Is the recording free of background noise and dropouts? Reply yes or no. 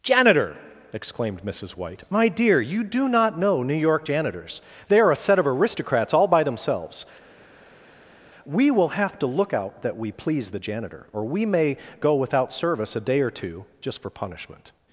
yes